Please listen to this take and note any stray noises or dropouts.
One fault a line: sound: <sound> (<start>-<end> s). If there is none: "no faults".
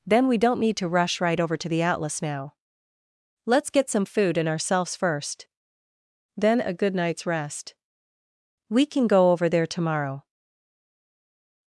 no faults